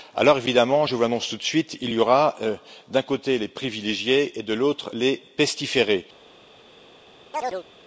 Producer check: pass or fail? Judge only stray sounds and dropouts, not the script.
fail